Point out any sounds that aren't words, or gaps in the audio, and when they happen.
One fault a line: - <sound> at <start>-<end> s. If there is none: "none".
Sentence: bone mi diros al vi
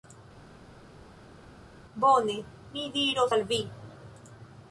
none